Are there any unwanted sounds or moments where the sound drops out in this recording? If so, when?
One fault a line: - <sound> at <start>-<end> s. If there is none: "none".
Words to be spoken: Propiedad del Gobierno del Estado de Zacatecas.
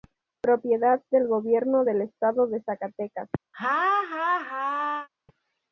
- laugh at 3.5-5.1 s